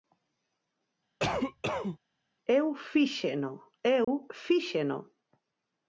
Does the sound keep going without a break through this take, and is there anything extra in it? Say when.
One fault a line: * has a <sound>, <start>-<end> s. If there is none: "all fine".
* has a cough, 1.2-2.0 s
* has a dropout, 4.0-4.1 s